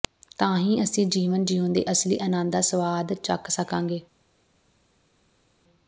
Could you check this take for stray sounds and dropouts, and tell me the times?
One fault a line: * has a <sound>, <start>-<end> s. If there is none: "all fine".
all fine